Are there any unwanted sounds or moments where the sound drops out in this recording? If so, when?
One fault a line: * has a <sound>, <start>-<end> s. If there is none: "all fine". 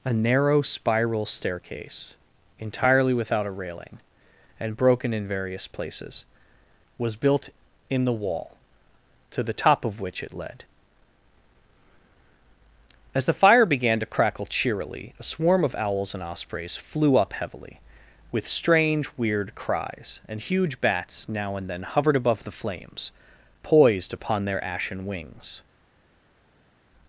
all fine